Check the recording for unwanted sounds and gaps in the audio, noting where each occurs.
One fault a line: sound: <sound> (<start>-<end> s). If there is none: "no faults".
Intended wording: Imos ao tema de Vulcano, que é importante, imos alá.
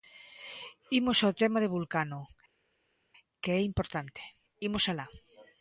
no faults